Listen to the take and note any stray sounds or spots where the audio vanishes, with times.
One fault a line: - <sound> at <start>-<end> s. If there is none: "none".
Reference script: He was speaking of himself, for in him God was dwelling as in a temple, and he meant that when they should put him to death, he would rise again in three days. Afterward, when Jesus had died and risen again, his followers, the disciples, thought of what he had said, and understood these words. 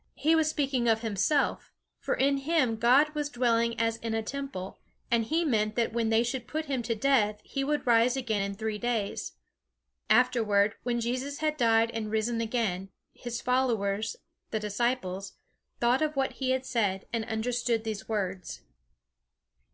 none